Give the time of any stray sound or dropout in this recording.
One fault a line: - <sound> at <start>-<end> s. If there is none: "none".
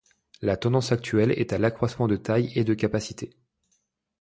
none